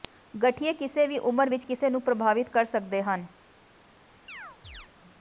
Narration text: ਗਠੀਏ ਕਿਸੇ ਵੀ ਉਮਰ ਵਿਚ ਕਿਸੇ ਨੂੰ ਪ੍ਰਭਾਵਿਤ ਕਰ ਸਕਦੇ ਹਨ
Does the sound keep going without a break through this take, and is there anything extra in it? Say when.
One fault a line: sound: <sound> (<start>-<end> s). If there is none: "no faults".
sound: chirp (4.3-4.9 s)